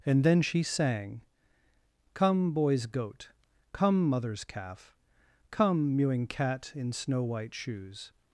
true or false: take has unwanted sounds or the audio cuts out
false